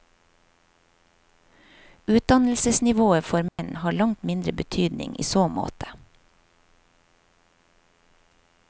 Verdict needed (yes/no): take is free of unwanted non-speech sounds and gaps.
no